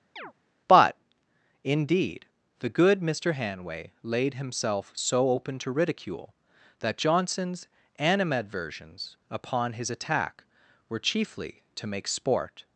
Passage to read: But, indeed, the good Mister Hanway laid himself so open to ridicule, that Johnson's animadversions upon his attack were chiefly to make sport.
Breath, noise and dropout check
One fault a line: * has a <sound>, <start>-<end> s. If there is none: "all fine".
* has a chirp, 0.2-0.3 s